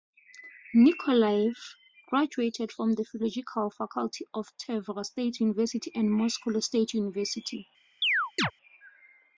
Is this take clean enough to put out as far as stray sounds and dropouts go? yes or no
no